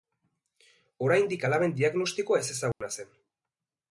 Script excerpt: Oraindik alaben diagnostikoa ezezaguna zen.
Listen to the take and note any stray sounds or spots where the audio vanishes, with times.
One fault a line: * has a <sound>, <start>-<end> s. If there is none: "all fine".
* has a dropout, 2.7-2.8 s